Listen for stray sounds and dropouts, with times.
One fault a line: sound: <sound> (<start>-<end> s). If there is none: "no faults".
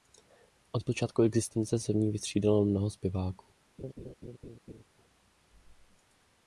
sound: laugh (3.8-4.8 s)